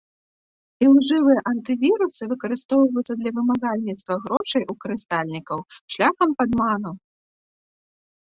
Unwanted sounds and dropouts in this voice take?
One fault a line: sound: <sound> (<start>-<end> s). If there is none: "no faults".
sound: dropout (4.4-4.4 s)